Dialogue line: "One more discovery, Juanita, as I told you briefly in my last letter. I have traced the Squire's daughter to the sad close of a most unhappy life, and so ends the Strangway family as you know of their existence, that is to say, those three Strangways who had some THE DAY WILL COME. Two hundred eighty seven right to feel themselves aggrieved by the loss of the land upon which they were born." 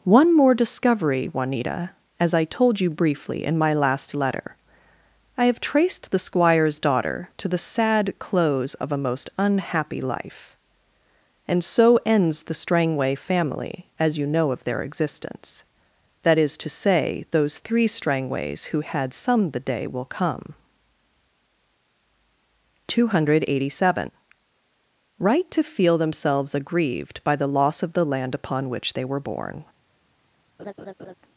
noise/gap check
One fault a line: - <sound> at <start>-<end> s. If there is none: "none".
- laugh at 30.6-31.1 s